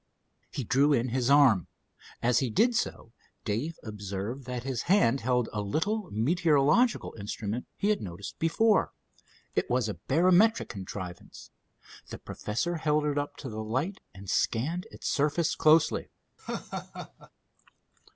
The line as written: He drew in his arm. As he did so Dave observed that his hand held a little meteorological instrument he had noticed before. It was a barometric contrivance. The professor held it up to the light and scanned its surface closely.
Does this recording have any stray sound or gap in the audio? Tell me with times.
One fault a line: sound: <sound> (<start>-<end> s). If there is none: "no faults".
sound: laugh (16.4-17.3 s)